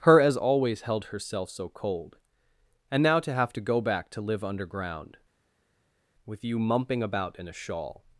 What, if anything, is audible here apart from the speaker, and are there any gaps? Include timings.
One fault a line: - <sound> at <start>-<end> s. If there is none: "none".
none